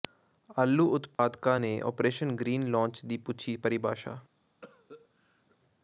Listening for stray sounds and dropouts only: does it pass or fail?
fail